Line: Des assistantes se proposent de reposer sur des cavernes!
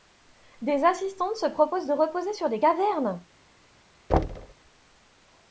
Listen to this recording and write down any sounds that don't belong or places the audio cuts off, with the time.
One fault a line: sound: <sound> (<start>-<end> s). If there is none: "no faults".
sound: thud (4.1-4.5 s)